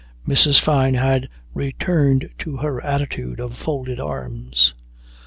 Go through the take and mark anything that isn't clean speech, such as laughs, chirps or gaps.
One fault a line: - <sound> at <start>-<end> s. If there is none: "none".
none